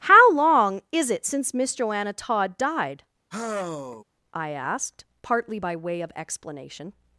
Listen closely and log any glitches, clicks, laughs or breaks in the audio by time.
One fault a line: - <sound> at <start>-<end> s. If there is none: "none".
- sigh at 3.3-4.0 s